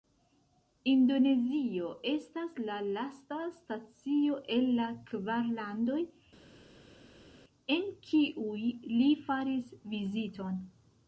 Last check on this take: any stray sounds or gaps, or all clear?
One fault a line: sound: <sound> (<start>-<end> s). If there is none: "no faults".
no faults